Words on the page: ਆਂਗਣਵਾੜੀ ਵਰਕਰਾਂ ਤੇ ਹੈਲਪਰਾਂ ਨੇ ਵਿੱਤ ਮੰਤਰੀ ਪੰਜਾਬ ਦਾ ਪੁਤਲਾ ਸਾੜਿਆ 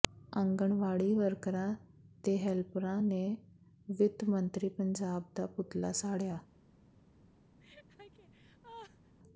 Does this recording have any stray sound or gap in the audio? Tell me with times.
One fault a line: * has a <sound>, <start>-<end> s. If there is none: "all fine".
* has a laugh, 7.6-9.2 s